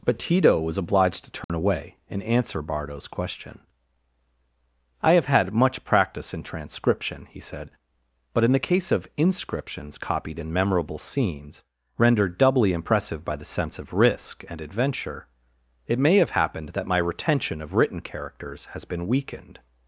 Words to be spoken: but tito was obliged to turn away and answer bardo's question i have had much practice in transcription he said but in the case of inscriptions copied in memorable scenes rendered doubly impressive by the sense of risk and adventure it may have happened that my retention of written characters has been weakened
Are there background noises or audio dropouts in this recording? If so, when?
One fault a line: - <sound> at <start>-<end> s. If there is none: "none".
- dropout at 1.4-1.5 s